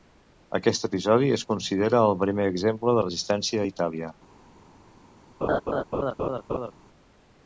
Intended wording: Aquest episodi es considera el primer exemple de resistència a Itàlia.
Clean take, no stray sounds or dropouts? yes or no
no